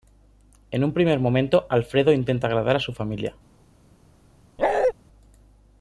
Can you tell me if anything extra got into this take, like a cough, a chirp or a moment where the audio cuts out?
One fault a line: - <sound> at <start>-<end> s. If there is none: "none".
- bark at 4.6-4.9 s